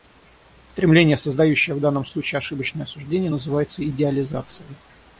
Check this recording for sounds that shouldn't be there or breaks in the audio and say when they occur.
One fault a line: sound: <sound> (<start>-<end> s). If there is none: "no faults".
no faults